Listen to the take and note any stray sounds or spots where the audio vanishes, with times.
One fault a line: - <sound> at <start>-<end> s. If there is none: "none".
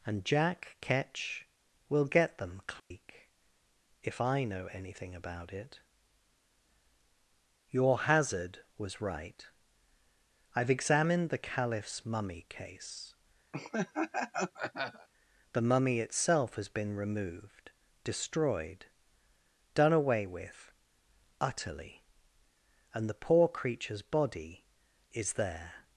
- dropout at 2.8-2.9 s
- laugh at 13.5-15.1 s